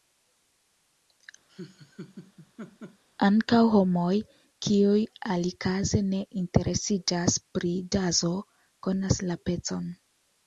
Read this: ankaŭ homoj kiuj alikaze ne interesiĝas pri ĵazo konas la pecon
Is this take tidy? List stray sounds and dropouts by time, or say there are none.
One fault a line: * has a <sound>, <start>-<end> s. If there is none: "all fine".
* has a laugh, 1.5-3.0 s